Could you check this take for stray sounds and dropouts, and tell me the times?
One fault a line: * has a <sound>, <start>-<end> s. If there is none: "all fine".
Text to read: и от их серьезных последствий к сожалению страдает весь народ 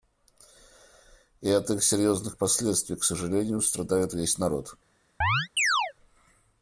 * has a chirp, 5.2-5.9 s